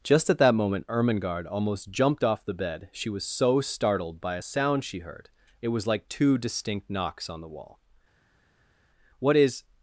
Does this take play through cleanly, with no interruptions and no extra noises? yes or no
yes